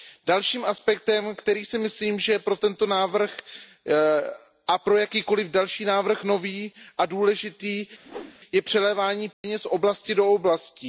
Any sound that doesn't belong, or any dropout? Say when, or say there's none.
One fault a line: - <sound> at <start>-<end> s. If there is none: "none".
- whoosh at 8.0-8.4 s
- dropout at 9.3-9.4 s